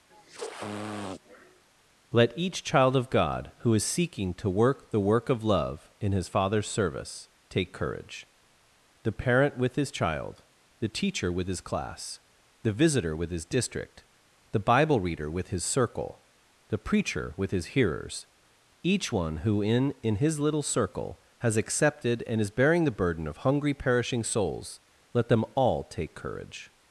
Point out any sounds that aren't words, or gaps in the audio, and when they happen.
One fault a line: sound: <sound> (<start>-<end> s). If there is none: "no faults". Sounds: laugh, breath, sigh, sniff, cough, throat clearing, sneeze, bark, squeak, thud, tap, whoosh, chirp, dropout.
sound: sniff (0.1-1.7 s)